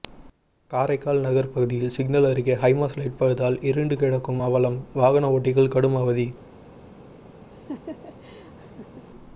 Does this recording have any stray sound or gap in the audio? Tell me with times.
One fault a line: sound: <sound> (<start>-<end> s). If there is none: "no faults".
sound: laugh (7.5-9.1 s)